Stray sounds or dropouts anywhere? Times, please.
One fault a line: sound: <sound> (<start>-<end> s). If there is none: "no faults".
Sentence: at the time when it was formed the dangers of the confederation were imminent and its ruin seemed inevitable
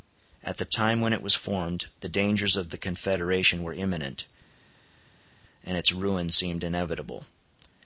no faults